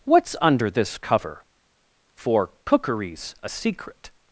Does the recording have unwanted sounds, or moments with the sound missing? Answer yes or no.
no